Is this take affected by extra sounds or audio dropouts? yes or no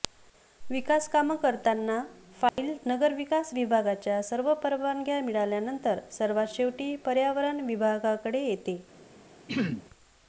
yes